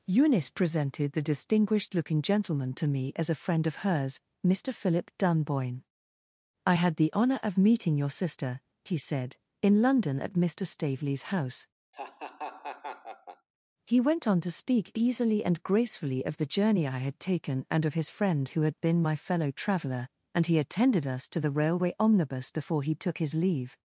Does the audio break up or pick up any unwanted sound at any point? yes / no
yes